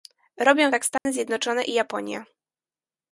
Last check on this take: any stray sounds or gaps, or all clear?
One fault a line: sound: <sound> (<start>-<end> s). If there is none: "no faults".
sound: dropout (1.0-1.1 s)